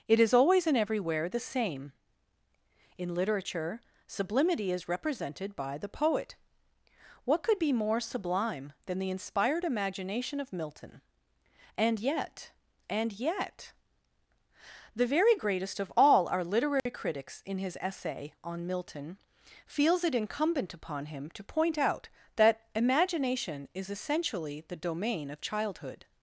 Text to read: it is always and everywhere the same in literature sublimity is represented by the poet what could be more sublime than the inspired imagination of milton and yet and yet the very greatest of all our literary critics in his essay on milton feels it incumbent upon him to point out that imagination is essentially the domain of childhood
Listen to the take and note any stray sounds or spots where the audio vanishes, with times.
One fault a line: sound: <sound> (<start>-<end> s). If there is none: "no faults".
sound: dropout (16.8-16.9 s)